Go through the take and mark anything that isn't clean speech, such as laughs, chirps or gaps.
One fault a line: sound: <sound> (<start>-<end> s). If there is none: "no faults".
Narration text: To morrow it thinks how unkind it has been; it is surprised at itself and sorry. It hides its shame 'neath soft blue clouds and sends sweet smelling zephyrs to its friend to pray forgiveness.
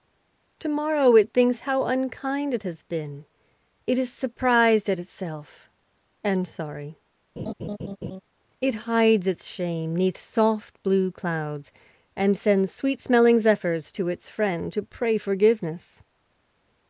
sound: laugh (7.4-8.2 s)